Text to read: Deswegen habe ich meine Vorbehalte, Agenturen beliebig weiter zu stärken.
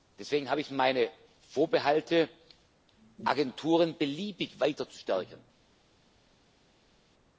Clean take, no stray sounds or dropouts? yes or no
yes